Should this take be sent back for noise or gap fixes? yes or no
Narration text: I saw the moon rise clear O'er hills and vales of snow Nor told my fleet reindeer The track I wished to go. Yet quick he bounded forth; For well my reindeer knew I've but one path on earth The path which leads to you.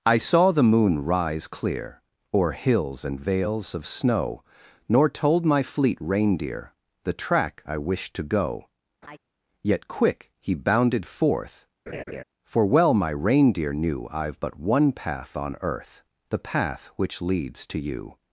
yes